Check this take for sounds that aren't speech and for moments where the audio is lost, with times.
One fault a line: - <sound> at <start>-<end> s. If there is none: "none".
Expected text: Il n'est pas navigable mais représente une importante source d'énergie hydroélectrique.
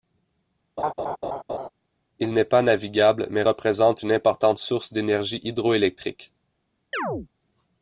- laugh at 0.8-1.7 s
- chirp at 6.9-7.3 s